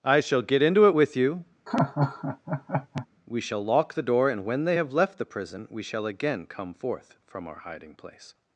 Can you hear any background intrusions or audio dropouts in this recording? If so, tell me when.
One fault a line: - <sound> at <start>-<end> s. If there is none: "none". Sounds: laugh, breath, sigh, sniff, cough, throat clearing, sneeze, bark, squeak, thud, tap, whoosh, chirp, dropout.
- laugh at 1.7-3.1 s